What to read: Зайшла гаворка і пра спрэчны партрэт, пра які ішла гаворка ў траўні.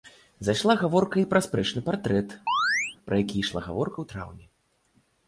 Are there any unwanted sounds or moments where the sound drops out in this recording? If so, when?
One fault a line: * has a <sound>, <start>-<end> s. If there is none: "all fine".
* has a chirp, 2.5-3.0 s